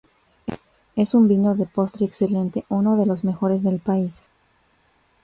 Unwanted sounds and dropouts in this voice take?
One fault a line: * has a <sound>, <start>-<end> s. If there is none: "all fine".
all fine